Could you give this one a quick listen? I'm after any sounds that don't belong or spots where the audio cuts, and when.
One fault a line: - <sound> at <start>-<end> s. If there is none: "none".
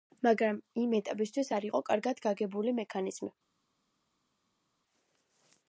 none